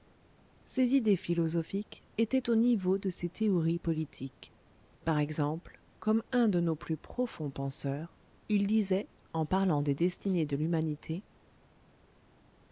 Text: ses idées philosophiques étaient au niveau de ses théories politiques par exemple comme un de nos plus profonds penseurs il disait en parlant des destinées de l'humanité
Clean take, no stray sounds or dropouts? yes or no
yes